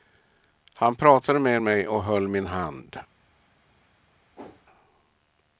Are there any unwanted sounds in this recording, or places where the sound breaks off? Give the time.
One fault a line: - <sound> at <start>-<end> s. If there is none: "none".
- whoosh at 4.4-4.7 s